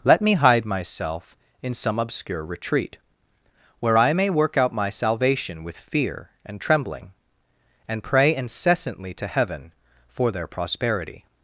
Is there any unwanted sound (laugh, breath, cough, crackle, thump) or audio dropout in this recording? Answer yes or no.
no